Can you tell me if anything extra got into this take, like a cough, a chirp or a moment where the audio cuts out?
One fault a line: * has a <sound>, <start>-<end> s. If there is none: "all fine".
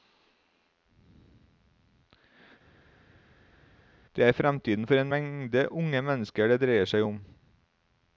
all fine